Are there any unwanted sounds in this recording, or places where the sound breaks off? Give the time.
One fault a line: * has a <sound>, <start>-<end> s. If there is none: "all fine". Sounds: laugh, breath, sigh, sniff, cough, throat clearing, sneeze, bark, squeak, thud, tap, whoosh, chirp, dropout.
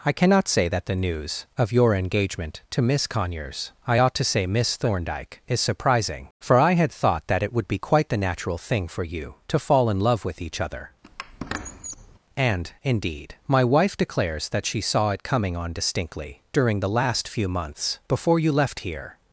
* has a squeak, 11.0-12.2 s